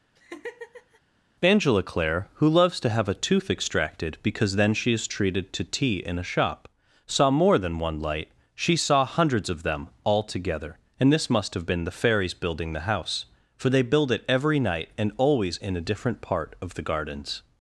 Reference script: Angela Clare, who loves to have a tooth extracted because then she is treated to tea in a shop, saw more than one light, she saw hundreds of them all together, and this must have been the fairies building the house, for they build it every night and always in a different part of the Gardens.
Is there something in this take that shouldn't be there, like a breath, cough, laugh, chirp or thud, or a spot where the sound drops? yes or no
yes